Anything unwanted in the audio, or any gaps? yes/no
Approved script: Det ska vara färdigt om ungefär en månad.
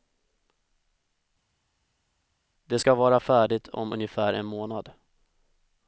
no